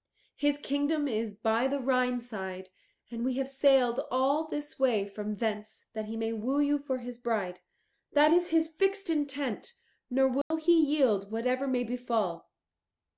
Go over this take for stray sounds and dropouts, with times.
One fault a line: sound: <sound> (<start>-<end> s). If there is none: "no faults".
sound: dropout (10.4-10.5 s)